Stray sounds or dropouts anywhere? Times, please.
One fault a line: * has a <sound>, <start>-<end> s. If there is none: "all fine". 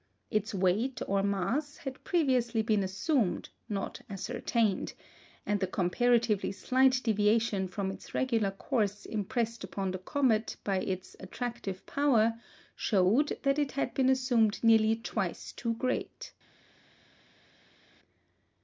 all fine